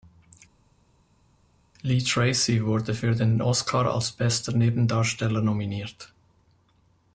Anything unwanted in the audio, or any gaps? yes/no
no